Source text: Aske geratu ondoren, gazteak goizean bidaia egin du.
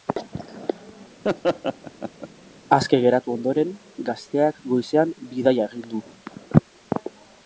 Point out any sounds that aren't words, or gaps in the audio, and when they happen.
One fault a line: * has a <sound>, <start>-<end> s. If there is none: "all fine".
* has a laugh, 1.2-2.3 s